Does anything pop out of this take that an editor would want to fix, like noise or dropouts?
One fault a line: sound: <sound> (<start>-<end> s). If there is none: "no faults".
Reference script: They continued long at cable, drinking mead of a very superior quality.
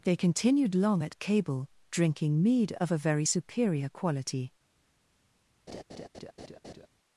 sound: laugh (5.7-6.9 s)